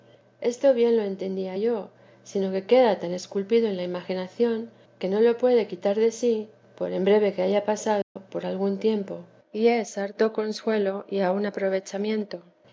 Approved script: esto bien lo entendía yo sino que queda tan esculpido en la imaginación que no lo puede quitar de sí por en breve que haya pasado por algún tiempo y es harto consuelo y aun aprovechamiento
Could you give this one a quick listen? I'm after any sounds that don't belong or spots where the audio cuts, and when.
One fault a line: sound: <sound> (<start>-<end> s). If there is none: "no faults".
sound: dropout (8.0-8.2 s)